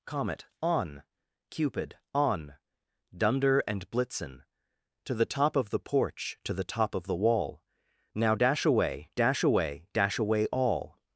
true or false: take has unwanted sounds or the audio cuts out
false